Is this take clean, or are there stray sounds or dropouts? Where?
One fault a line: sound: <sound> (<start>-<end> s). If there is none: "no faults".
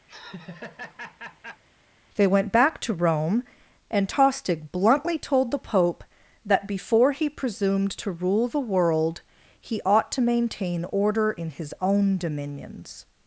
sound: laugh (0.1-1.6 s)